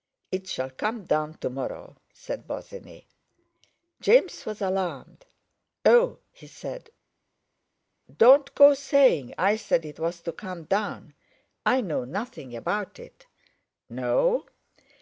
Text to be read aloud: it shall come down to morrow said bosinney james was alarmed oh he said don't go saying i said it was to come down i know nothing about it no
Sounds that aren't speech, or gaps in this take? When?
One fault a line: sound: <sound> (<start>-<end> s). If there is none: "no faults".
no faults